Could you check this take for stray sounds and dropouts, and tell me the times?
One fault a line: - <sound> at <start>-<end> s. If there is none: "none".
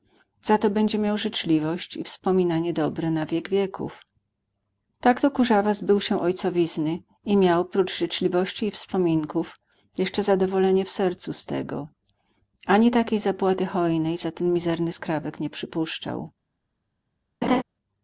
- laugh at 17.4-17.6 s